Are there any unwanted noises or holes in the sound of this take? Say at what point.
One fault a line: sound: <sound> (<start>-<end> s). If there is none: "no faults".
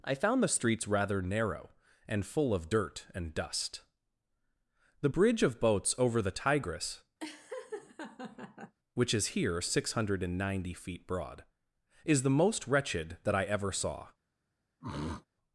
sound: laugh (7.2-8.8 s)
sound: throat clearing (14.8-15.3 s)